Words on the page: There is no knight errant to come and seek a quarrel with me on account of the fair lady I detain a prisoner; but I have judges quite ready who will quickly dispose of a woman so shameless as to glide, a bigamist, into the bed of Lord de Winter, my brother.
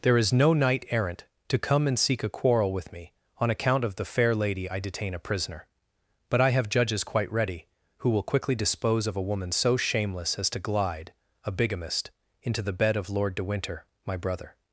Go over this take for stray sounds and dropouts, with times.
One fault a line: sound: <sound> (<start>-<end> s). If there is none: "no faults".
no faults